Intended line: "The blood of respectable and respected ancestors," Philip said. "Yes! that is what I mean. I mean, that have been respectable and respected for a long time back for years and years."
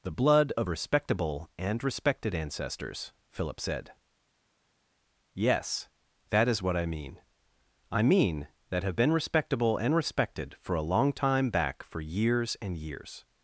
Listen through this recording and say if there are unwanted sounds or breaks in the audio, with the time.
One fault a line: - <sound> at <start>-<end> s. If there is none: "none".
none